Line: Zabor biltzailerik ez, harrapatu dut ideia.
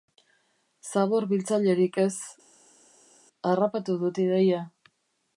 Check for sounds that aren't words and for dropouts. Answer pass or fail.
pass